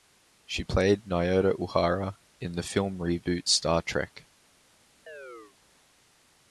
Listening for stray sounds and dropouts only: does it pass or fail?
fail